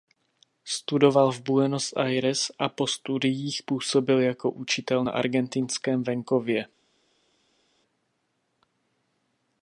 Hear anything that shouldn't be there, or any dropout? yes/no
no